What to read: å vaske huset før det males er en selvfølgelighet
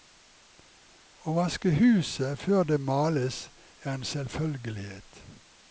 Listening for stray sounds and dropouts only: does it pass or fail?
pass